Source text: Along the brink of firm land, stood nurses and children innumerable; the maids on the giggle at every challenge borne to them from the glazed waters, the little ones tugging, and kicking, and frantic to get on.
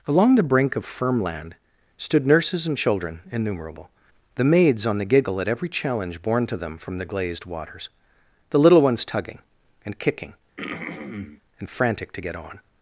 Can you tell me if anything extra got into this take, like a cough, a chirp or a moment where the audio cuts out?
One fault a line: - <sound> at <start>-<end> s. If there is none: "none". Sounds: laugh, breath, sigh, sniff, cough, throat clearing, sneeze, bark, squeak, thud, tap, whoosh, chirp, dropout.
- throat clearing at 10.6-11.4 s